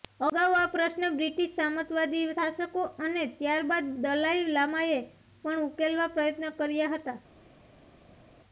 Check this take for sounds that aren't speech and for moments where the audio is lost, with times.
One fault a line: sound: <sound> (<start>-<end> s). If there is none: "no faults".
no faults